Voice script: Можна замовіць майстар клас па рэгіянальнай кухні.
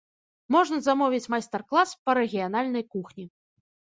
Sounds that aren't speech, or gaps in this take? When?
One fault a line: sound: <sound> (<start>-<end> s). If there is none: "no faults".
no faults